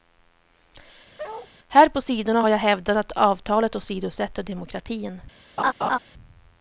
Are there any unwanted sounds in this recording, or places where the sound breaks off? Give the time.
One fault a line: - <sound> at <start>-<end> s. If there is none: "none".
- bark at 1.2-1.5 s
- laugh at 5.6-6.0 s